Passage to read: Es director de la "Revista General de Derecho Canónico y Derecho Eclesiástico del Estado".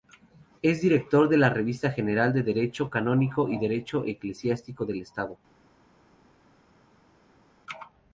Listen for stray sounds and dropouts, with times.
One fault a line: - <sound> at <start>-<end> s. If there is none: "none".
none